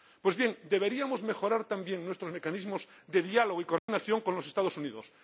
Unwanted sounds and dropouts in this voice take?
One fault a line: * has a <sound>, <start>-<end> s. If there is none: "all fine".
* has a dropout, 3.8-3.9 s